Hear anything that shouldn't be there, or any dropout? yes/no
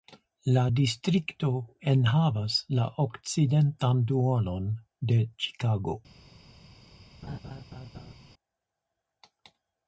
yes